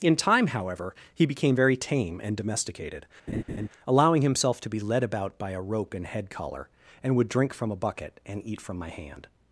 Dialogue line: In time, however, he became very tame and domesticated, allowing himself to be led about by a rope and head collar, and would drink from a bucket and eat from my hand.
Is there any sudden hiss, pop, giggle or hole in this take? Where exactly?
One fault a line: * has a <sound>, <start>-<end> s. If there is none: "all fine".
* has a laugh, 3.3-3.7 s